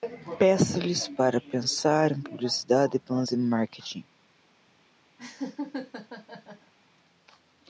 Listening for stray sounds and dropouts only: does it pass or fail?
fail